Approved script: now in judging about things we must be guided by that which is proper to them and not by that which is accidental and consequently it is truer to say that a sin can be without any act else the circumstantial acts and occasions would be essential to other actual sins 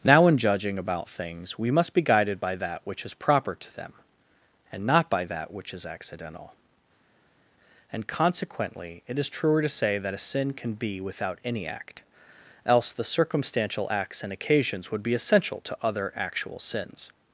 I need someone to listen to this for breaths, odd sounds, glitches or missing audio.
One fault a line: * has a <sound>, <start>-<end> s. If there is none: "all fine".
all fine